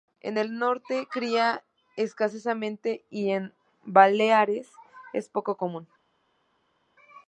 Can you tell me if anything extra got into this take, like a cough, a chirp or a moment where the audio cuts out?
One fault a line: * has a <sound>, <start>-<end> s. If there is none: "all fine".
all fine